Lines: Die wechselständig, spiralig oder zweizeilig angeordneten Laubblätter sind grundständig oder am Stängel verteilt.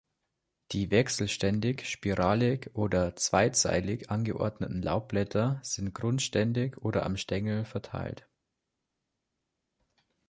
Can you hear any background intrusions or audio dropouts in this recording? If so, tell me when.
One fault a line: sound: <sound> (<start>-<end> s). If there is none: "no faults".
no faults